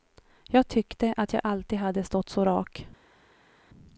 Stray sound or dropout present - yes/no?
no